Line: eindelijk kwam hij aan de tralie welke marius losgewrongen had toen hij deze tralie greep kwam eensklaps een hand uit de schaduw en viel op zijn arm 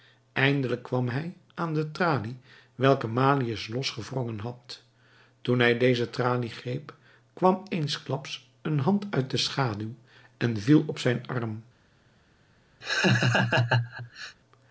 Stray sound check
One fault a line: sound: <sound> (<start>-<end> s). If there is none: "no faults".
sound: laugh (12.8-14.4 s)